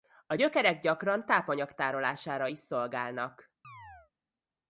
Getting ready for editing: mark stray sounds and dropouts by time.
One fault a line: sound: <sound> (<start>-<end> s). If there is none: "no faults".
sound: chirp (3.6-4.1 s)